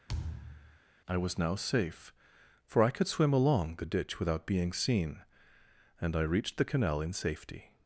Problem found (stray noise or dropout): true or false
true